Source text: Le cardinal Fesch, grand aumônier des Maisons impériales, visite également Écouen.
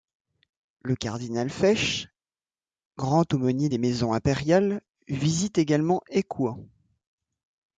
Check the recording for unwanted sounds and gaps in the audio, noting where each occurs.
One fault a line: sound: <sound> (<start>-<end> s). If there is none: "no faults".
no faults